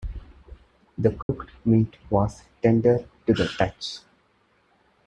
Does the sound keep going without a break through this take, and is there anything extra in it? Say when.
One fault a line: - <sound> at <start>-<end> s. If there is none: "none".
- dropout at 1.2-1.3 s